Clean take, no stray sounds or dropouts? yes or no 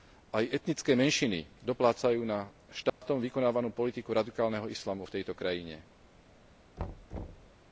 no